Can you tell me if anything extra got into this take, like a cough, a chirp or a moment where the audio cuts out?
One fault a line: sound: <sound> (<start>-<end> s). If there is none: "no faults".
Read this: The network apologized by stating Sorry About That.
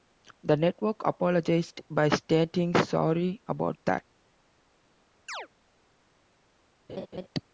sound: chirp (5.3-5.5 s)
sound: laugh (6.9-7.3 s)